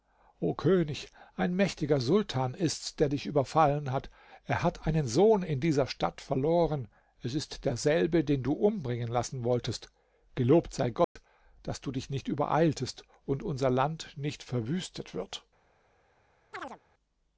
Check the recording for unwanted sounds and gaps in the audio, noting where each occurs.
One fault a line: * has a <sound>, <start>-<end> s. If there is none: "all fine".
* has a dropout, 11.0-11.2 s
* has a chirp, 16.5-16.8 s